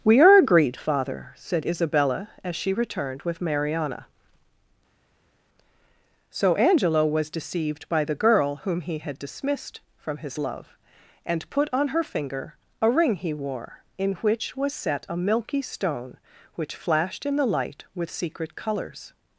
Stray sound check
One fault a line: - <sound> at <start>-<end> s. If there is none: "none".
none